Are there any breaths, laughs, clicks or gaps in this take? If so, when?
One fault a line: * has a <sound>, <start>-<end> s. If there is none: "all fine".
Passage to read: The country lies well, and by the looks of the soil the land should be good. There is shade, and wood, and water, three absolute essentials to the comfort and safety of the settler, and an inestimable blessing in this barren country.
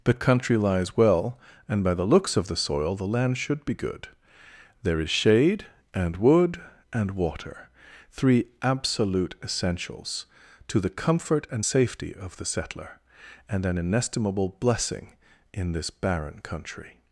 all fine